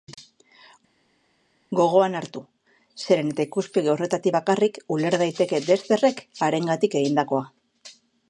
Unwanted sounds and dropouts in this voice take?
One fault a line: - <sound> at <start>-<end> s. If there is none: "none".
none